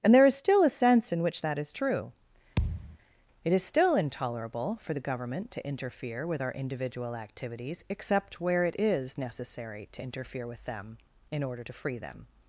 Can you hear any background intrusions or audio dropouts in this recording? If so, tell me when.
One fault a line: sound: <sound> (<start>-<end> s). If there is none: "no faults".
sound: thud (2.6-3.0 s)